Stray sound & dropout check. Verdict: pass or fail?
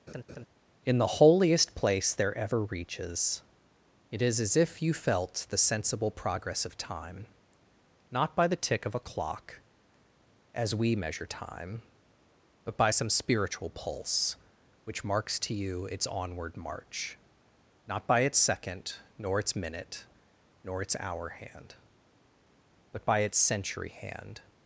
fail